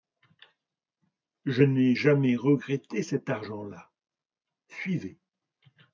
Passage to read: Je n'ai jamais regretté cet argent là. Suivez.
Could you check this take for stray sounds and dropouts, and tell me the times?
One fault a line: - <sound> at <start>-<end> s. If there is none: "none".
none